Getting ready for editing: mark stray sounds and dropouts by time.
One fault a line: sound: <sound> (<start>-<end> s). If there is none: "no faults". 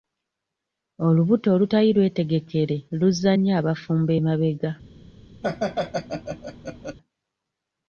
sound: laugh (5.4-7.0 s)